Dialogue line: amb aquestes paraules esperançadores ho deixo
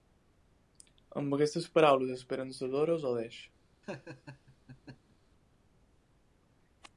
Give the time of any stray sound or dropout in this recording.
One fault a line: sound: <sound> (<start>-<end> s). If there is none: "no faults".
sound: laugh (3.8-5.2 s)